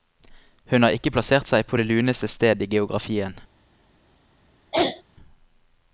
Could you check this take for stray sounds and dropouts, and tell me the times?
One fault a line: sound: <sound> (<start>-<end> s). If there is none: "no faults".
sound: throat clearing (4.7-5.0 s)